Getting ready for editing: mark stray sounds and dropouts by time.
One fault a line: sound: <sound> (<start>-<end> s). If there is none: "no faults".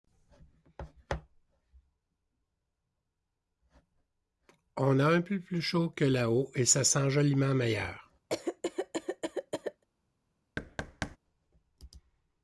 sound: cough (8.3-9.8 s)
sound: thud (10.6-11.2 s)